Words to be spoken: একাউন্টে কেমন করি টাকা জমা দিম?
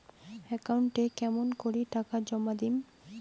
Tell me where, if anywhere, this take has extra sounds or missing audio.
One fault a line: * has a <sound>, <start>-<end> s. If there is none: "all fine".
all fine